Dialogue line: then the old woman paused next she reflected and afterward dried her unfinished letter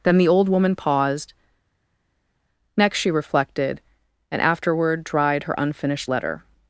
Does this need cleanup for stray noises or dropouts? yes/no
no